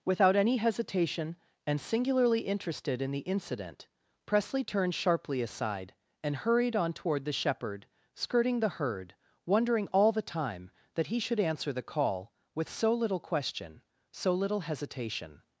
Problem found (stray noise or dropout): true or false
false